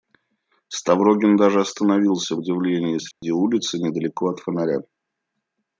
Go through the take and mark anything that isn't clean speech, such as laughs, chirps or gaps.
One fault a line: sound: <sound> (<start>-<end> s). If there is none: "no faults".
sound: dropout (3.1-3.2 s)